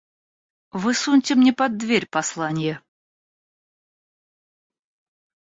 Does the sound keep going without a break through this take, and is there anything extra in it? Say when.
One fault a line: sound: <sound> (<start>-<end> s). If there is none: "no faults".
no faults